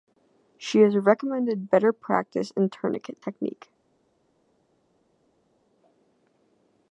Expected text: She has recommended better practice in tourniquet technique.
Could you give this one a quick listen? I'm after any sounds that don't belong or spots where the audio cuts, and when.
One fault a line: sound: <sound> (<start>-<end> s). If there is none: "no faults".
no faults